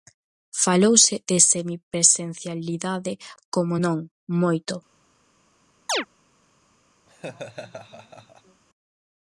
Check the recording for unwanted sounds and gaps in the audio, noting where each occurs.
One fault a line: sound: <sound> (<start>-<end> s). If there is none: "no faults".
sound: chirp (5.9-6.1 s)
sound: laugh (7.1-8.6 s)